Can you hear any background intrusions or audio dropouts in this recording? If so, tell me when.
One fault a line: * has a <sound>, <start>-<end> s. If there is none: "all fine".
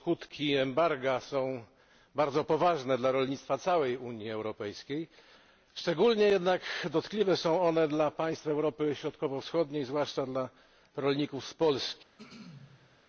* has a throat clearing, 12.2-13.0 s